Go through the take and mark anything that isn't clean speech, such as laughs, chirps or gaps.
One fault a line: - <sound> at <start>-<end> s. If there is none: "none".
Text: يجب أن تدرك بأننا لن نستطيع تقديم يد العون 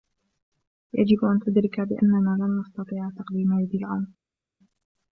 none